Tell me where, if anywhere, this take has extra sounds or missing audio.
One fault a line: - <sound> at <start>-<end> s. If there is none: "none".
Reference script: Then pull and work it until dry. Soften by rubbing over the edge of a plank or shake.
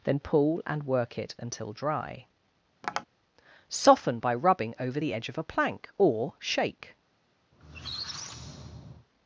- tap at 2.8-3.1 s
- squeak at 7.5-9.1 s